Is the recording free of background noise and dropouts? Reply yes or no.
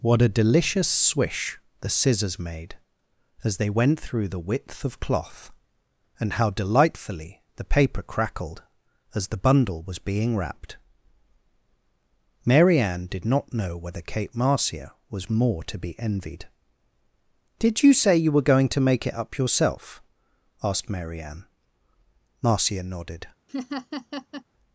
no